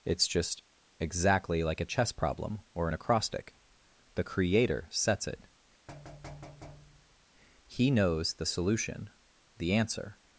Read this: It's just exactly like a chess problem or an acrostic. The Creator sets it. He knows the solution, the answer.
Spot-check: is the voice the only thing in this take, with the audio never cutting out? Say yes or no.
no